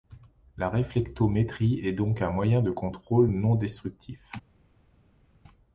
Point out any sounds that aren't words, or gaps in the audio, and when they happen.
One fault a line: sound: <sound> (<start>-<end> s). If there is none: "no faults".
no faults